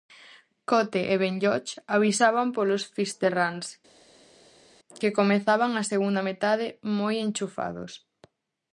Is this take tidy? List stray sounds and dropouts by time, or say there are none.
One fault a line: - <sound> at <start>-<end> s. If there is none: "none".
none